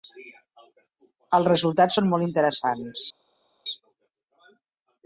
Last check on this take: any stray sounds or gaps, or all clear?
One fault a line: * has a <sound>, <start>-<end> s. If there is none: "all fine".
all fine